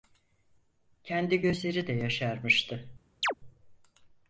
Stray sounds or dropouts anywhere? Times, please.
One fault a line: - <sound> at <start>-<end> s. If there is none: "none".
- chirp at 3.2-3.3 s